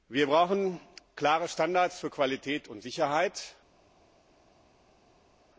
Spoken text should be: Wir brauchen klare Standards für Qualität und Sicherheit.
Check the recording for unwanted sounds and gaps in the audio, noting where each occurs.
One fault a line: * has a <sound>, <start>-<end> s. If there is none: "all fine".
all fine